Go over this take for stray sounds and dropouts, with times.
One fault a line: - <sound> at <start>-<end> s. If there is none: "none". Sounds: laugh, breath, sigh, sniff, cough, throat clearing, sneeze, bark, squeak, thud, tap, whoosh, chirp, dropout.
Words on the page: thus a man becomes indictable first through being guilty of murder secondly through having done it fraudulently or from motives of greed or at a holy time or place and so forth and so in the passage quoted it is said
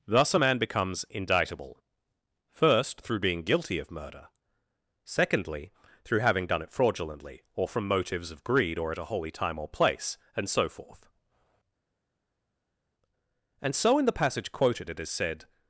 none